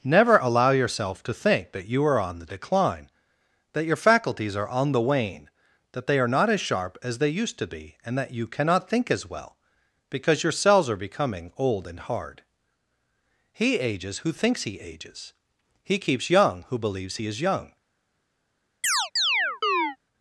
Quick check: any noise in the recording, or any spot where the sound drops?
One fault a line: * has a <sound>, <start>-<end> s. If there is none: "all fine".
* has a chirp, 18.8-20.0 s